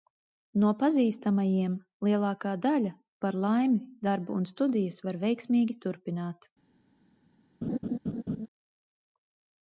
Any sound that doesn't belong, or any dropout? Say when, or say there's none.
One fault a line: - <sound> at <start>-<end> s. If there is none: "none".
- laugh at 7.6-8.5 s